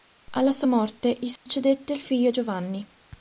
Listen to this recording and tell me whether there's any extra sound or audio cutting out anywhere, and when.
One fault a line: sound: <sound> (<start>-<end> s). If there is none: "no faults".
sound: dropout (1.4-1.5 s)